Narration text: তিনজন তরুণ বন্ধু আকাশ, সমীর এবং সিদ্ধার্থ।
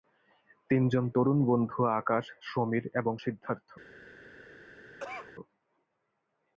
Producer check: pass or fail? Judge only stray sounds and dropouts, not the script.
fail